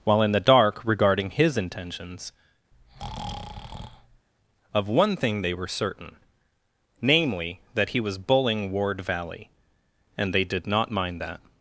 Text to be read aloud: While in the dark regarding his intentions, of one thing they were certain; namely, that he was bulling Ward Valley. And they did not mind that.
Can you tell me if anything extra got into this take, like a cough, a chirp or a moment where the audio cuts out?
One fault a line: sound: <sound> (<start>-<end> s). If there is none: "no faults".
sound: breath (2.7-4.3 s)